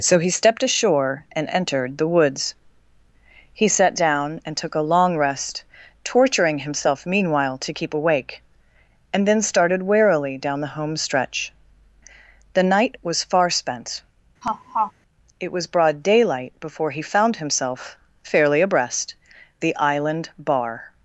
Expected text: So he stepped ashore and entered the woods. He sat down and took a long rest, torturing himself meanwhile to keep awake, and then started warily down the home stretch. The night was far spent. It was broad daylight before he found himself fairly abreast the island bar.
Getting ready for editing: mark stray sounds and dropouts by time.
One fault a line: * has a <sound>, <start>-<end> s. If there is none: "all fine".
* has a laugh, 14.4-14.9 s